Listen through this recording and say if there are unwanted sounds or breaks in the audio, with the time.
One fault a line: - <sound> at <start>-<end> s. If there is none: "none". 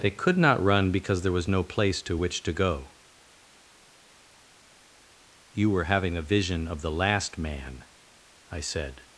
none